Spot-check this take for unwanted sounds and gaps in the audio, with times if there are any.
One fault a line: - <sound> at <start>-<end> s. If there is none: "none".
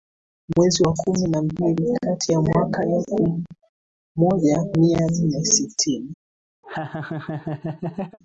- laugh at 6.6-8.2 s